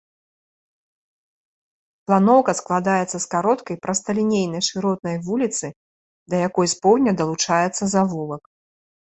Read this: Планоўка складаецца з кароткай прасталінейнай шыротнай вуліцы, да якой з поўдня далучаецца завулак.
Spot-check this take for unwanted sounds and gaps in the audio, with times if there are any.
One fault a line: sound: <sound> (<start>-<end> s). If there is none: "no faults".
no faults